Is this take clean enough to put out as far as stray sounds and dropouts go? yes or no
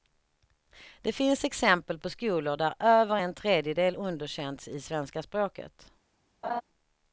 no